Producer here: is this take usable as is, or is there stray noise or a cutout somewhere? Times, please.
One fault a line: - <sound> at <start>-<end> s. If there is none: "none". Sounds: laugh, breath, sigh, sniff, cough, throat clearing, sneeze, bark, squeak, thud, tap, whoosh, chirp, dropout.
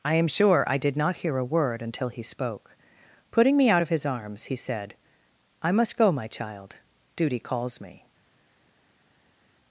none